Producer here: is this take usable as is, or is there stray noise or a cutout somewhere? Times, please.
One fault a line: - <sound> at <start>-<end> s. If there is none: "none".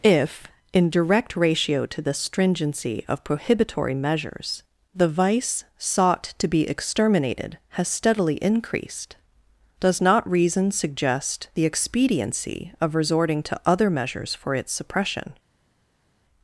none